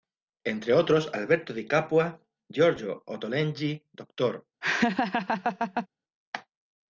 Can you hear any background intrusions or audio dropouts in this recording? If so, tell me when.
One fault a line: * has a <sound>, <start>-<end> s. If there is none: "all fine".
* has a laugh, 4.6-5.9 s